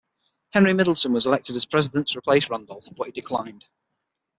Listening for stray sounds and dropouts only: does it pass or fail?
pass